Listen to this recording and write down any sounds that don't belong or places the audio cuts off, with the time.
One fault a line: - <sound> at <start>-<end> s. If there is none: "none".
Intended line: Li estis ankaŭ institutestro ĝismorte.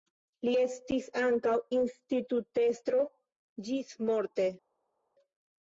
none